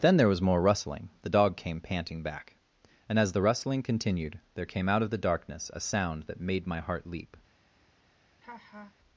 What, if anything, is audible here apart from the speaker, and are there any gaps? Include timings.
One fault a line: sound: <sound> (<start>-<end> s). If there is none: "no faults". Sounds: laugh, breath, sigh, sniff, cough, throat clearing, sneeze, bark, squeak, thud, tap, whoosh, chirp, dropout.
sound: laugh (8.4-8.9 s)